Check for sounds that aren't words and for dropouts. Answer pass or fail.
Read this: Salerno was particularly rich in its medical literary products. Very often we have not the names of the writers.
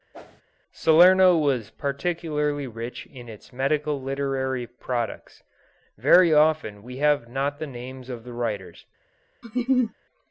fail